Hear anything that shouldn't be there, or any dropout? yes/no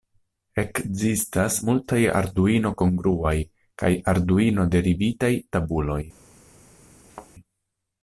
yes